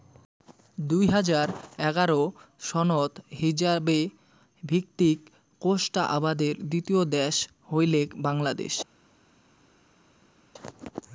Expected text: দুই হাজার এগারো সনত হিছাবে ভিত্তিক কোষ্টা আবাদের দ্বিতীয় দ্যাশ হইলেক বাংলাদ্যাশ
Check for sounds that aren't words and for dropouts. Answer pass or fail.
pass